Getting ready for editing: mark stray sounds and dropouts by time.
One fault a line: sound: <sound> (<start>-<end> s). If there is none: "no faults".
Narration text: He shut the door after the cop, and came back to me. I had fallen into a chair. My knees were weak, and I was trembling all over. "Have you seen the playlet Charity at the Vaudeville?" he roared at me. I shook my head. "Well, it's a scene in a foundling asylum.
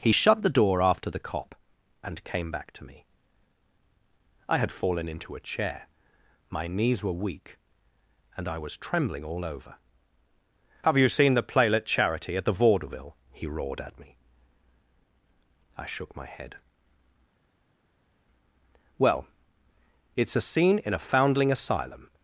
no faults